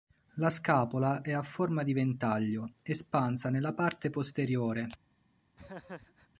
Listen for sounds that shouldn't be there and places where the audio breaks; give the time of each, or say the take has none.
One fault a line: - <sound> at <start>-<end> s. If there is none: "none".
- laugh at 5.6-6.3 s